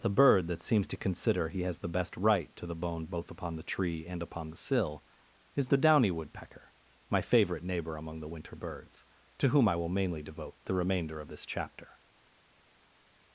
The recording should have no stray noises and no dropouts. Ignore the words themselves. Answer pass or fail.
pass